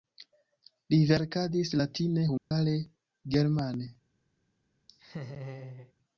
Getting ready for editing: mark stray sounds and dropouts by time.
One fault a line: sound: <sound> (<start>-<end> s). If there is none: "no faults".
sound: dropout (2.4-2.5 s)
sound: laugh (4.9-5.9 s)